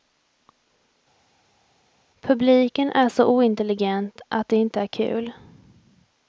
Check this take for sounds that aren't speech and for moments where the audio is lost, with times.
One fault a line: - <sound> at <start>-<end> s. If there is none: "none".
none